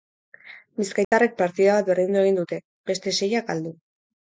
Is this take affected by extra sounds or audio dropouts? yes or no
yes